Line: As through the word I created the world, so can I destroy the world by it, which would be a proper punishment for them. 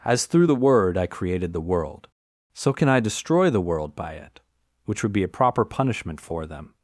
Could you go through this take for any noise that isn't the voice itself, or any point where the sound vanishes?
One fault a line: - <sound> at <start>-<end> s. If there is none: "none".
none